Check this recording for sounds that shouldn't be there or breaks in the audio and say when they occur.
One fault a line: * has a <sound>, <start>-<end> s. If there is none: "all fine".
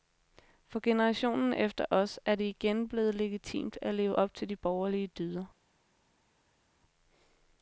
all fine